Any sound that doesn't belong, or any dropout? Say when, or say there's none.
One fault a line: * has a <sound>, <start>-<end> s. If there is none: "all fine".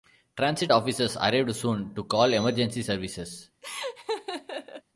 * has a laugh, 3.6-4.8 s